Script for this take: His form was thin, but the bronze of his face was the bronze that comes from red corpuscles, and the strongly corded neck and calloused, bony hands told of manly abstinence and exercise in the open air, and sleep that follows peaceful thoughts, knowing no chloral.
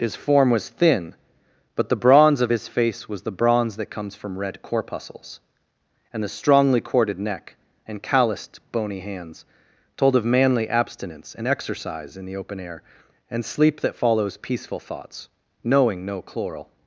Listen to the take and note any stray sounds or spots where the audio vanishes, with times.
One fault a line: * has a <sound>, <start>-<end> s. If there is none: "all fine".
all fine